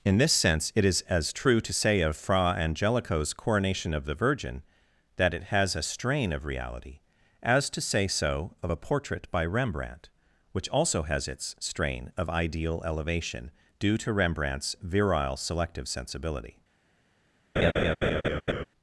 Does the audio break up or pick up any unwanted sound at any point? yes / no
yes